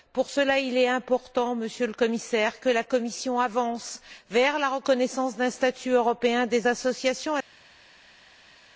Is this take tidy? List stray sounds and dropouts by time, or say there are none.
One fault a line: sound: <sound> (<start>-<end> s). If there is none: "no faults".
no faults